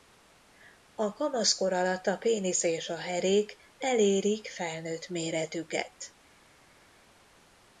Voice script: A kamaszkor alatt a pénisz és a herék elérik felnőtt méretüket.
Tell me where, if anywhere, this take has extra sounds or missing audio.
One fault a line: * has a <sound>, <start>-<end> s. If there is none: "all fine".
all fine